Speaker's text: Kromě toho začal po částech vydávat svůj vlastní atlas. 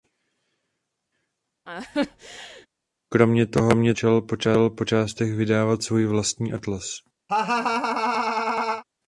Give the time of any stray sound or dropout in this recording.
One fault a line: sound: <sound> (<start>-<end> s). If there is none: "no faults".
sound: laugh (1.7-2.7 s)
sound: laugh (7.3-8.8 s)